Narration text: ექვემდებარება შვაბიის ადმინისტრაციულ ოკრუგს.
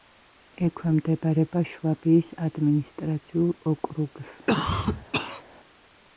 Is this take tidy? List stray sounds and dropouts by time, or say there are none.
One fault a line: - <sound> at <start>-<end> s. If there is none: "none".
- cough at 4.5-5.4 s